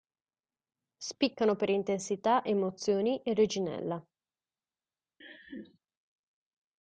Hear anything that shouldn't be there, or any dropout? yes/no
yes